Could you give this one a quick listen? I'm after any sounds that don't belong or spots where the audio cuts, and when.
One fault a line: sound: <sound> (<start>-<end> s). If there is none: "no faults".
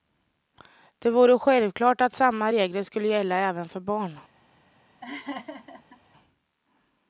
sound: laugh (5.0-6.0 s)